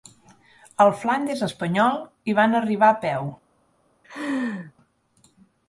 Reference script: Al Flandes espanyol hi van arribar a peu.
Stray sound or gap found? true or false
true